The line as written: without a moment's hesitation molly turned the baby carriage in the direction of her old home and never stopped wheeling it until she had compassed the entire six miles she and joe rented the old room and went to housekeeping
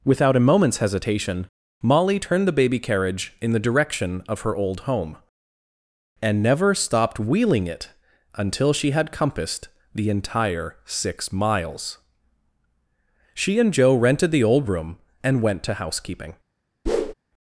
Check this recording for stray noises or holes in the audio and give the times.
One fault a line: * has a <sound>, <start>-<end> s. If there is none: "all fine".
* has a whoosh, 16.9-17.1 s